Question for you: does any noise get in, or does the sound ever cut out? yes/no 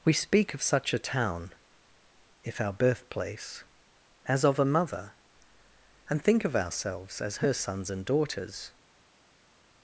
no